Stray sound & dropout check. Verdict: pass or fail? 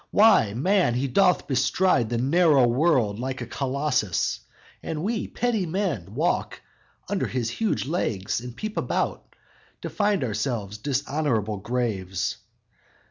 pass